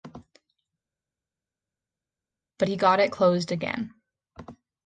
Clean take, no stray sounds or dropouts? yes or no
yes